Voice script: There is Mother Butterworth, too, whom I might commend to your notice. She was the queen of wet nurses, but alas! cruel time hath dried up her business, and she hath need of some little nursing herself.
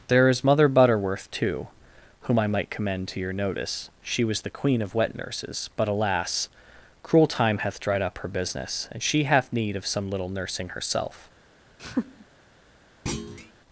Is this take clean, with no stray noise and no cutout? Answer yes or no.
no